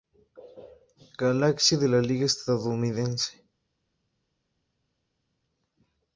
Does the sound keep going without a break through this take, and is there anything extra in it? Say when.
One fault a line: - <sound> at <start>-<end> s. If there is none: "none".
none